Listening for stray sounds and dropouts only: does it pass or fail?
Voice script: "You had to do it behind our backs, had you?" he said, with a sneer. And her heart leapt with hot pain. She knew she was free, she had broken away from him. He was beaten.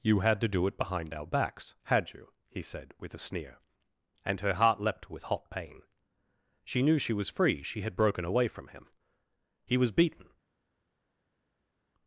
pass